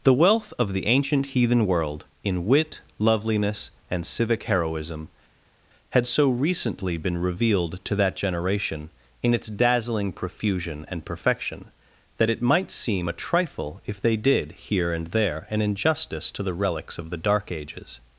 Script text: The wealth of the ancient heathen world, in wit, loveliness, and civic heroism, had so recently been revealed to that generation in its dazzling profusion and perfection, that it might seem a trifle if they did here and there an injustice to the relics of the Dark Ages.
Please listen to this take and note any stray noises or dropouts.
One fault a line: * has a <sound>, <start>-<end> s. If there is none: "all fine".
all fine